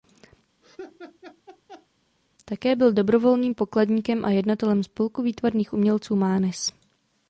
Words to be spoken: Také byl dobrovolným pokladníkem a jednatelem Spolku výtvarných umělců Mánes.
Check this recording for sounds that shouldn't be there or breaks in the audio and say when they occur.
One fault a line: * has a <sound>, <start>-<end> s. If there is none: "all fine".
* has a laugh, 0.6-1.9 s